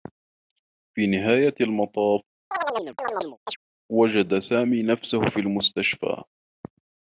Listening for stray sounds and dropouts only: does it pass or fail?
fail